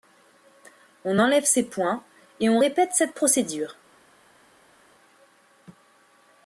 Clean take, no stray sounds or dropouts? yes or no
yes